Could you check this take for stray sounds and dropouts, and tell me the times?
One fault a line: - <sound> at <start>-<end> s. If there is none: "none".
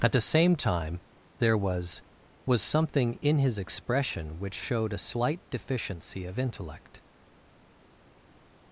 none